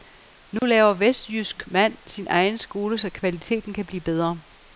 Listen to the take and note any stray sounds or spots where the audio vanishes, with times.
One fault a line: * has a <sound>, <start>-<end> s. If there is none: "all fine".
* has a dropout, 0.6-0.6 s